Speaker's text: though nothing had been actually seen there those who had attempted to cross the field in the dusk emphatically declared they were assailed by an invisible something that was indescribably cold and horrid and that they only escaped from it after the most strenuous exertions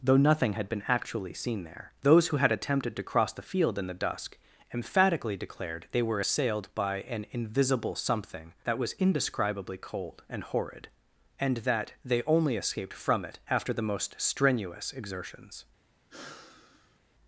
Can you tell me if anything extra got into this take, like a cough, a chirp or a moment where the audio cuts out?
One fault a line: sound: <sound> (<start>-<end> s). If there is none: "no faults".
sound: sigh (16.1-17.0 s)